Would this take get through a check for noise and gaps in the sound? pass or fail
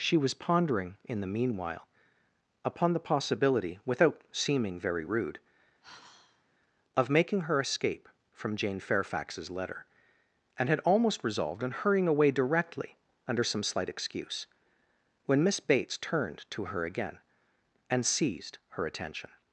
fail